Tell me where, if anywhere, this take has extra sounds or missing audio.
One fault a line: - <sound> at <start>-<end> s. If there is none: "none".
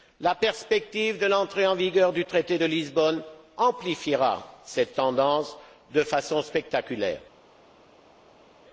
none